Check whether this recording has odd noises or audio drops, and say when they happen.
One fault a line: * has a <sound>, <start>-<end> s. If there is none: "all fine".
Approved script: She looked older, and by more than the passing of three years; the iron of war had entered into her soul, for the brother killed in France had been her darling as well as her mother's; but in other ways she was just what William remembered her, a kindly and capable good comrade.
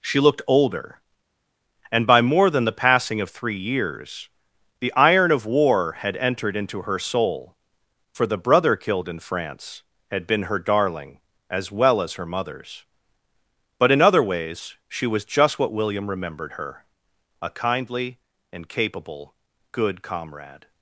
all fine